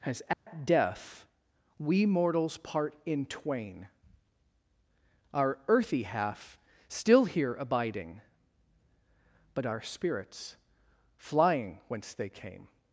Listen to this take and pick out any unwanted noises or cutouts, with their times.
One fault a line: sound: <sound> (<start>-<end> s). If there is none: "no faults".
sound: dropout (0.3-0.5 s)